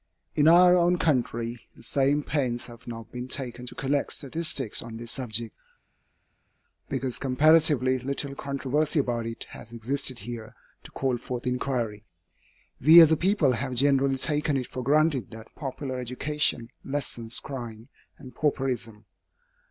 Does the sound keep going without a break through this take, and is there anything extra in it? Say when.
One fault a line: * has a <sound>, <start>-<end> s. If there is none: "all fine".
all fine